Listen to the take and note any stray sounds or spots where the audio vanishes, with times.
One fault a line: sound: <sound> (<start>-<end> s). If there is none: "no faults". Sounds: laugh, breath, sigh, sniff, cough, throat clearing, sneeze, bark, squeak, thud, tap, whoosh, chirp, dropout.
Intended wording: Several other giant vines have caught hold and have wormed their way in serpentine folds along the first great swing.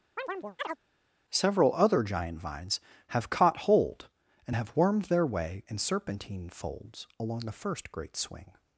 sound: chirp (0.2-0.8 s)